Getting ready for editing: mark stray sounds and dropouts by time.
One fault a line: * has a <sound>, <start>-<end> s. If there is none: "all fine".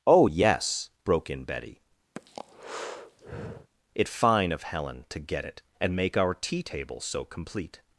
* has a breath, 2.2-3.7 s